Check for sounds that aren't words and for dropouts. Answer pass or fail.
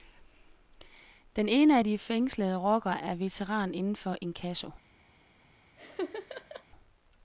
fail